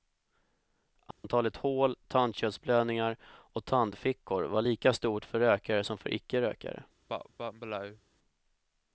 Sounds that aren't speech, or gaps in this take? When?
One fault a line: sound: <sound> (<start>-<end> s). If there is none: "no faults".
sound: dropout (1.1-1.2 s)
sound: cough (7.1-8.0 s)